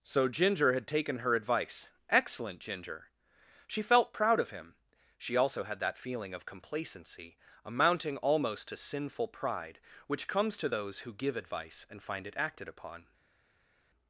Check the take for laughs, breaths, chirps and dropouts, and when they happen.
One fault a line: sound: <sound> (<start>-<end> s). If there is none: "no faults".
no faults